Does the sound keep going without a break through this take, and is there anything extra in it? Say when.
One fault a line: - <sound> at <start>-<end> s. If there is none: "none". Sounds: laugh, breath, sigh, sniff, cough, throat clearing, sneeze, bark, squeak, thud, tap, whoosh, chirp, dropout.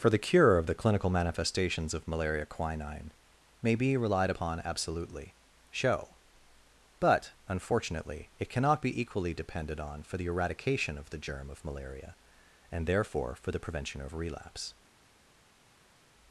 none